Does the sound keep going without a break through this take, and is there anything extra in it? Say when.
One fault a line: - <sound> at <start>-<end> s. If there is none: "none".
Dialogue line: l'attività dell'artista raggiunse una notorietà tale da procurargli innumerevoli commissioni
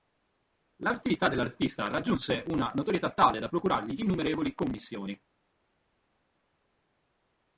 none